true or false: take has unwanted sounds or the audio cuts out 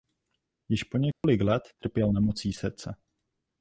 true